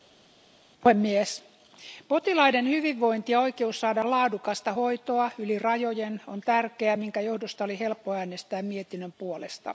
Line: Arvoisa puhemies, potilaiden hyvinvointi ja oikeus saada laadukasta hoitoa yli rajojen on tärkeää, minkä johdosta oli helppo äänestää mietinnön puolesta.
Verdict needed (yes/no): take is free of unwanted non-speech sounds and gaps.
yes